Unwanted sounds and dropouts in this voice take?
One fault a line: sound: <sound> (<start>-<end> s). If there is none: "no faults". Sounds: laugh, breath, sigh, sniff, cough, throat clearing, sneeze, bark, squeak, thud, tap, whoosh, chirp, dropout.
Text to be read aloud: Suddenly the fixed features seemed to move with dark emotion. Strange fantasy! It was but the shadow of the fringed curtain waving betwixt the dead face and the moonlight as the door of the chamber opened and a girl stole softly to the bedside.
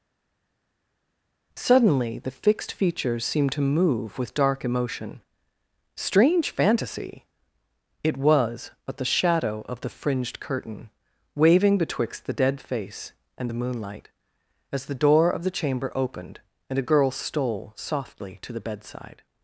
no faults